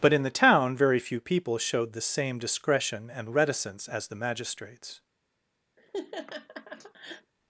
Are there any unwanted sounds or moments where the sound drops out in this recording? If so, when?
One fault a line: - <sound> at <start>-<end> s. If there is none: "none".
- laugh at 5.8-7.3 s